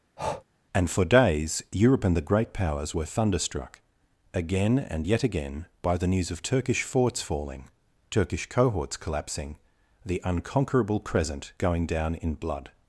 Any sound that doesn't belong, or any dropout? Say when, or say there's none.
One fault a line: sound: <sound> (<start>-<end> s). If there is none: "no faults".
sound: breath (0.2-0.4 s)